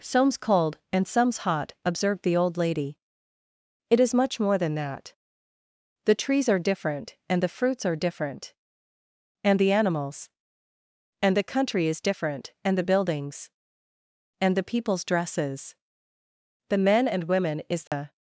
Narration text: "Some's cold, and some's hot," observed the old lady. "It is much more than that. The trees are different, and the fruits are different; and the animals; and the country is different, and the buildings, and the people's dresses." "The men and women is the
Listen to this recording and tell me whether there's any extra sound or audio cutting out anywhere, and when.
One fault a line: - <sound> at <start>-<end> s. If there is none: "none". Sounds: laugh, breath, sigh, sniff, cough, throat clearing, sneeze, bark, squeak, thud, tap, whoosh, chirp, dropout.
- dropout at 17.9-17.9 s